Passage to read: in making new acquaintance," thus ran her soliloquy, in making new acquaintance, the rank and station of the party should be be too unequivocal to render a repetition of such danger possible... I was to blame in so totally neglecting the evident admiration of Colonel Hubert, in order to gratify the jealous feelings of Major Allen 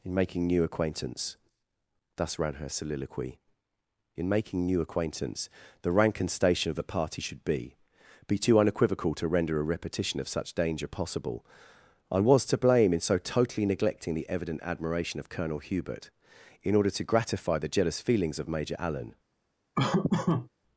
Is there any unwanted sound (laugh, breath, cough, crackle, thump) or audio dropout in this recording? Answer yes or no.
yes